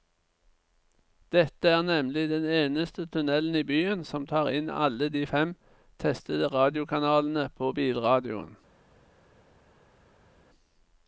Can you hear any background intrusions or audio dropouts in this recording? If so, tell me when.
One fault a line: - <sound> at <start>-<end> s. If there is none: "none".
none